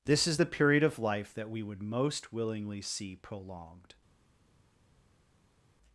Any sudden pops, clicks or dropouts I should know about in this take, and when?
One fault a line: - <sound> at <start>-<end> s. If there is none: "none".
none